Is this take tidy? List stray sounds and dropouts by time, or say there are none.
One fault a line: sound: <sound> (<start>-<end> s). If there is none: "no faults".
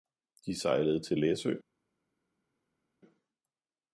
no faults